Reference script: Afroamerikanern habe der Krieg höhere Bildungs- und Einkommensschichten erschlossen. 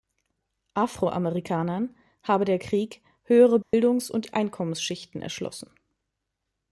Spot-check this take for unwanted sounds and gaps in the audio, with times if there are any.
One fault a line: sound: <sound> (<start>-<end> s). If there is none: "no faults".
sound: dropout (3.6-3.7 s)